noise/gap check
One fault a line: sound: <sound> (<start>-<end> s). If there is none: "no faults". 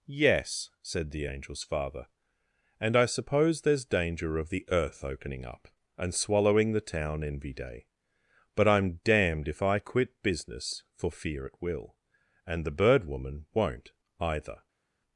no faults